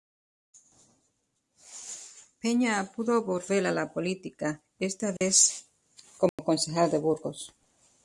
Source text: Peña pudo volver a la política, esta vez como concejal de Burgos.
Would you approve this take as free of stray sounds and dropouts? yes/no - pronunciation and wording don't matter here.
no